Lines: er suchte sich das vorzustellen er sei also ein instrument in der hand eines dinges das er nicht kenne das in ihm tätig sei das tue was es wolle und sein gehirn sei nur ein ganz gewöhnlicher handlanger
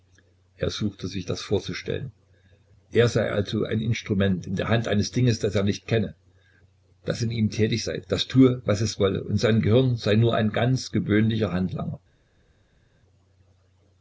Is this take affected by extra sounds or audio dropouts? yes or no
no